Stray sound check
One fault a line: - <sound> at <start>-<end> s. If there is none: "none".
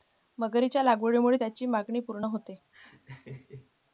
- laugh at 2.7-3.7 s